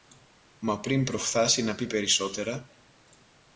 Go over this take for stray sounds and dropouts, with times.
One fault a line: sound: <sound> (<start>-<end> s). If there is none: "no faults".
no faults